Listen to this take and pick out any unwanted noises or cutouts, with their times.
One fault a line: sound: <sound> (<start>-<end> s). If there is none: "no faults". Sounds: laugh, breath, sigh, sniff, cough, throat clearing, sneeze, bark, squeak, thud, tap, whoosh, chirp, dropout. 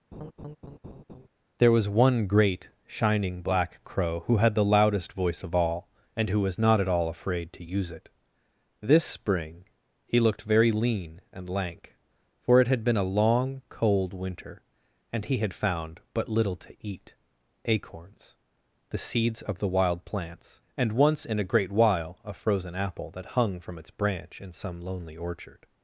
sound: laugh (0.1-1.3 s)